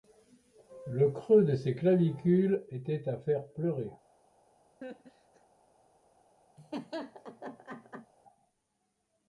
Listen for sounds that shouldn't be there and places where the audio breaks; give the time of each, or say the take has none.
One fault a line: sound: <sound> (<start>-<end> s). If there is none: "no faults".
sound: laugh (4.8-5.5 s)
sound: laugh (6.6-8.1 s)